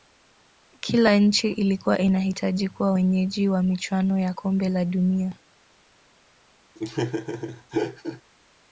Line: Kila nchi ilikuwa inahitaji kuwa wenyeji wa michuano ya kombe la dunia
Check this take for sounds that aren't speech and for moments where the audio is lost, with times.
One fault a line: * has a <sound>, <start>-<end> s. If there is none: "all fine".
* has a laugh, 6.7-8.2 s